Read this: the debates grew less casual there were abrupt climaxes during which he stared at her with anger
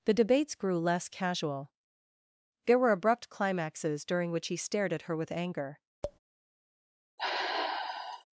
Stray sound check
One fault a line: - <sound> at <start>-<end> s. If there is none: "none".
- tap at 6.0-6.2 s
- sigh at 7.2-8.2 s